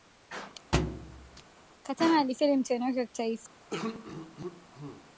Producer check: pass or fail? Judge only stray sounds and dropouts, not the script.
fail